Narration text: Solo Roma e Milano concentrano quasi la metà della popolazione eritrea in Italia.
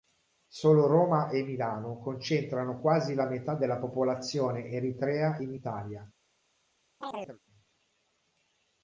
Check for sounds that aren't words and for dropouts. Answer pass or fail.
fail